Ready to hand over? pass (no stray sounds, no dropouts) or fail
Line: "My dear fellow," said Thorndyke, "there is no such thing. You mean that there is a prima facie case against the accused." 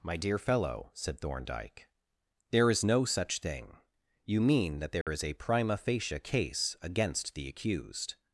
fail